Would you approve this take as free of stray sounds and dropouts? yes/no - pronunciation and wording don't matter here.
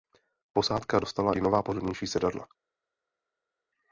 yes